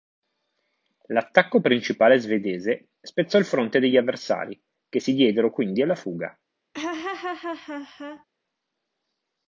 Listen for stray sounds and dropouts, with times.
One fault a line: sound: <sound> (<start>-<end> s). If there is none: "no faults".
sound: laugh (6.7-8.2 s)